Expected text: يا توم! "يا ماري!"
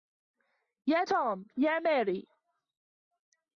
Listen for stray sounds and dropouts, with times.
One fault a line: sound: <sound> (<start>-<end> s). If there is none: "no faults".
no faults